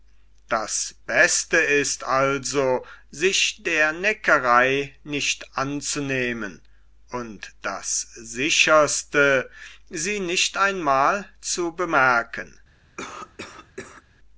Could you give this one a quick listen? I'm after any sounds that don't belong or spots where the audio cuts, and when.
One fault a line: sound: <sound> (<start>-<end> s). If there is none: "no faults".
sound: cough (13.0-14.0 s)